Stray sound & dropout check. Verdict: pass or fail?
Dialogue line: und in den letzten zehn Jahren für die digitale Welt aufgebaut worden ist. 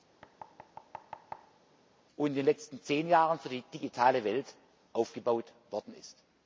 fail